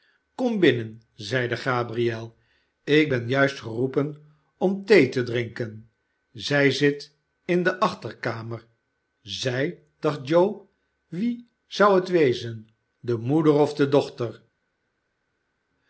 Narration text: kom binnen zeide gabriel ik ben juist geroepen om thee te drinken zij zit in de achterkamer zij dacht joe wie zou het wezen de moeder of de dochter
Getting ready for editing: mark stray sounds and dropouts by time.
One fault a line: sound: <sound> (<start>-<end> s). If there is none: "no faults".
no faults